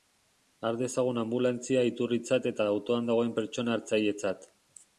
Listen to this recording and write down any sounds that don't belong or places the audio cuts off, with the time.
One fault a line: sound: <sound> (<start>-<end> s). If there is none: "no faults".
no faults